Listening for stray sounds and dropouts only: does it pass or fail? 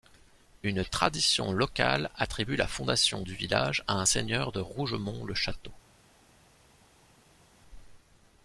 pass